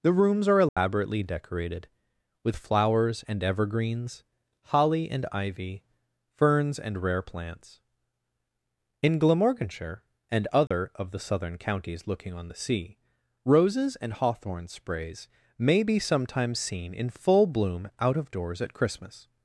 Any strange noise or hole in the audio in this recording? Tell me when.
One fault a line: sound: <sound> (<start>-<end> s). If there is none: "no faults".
sound: dropout (0.7-0.8 s)
sound: dropout (10.7-10.7 s)